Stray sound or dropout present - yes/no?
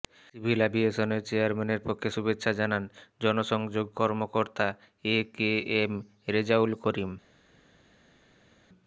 no